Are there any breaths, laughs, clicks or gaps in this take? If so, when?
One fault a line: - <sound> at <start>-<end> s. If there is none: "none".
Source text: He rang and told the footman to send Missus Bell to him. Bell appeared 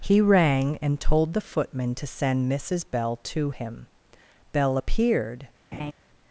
- laugh at 5.7-5.9 s